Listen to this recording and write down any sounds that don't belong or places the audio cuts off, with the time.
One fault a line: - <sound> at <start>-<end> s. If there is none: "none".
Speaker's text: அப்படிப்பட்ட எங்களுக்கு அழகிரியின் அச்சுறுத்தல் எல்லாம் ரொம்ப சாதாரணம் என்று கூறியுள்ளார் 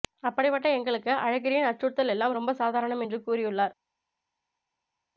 none